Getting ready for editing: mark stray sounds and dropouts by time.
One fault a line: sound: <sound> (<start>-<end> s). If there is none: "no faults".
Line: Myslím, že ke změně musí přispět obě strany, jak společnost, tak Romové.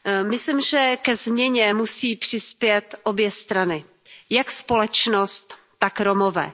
no faults